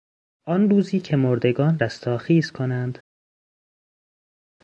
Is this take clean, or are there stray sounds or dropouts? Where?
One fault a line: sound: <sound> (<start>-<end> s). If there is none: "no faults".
no faults